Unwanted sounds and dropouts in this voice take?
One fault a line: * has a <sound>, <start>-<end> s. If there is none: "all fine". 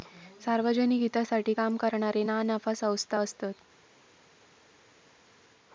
all fine